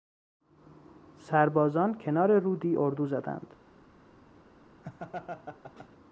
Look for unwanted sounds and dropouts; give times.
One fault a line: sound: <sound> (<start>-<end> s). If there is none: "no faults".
sound: laugh (4.8-5.9 s)